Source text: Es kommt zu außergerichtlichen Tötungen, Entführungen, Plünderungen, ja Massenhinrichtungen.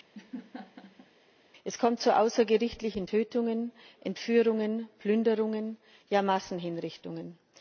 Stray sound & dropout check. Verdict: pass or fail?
fail